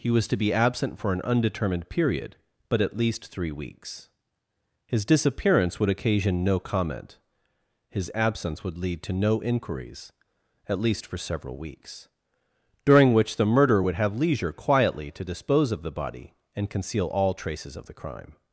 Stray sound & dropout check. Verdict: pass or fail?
pass